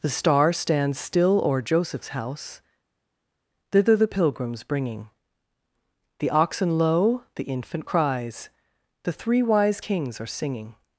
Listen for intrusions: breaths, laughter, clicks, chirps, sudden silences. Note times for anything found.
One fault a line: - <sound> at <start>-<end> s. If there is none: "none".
none